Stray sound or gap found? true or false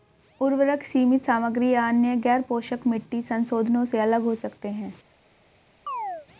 true